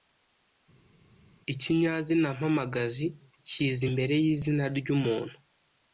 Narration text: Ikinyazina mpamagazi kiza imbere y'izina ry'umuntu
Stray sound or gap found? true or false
false